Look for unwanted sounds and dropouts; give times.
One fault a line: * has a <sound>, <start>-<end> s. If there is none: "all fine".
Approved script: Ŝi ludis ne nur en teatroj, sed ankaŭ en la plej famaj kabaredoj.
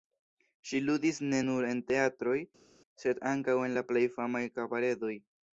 all fine